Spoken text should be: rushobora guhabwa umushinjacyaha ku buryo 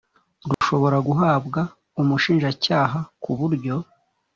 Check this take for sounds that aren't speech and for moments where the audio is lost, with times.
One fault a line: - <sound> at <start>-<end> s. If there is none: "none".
- dropout at 0.5-0.6 s